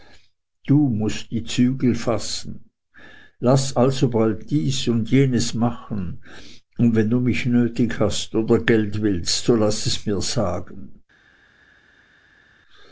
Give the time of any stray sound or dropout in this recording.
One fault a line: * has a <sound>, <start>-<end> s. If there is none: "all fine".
all fine